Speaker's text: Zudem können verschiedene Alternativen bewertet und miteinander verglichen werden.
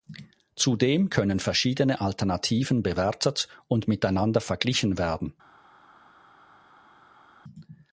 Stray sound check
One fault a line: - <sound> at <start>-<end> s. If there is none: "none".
none